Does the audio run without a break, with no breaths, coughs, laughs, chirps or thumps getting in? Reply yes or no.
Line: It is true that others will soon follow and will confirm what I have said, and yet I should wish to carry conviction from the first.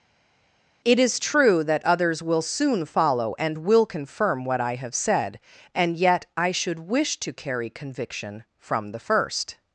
yes